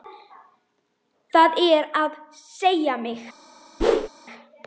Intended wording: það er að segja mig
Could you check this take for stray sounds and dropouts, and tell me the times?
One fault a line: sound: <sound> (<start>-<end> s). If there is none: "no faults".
sound: whoosh (3.8-4.1 s)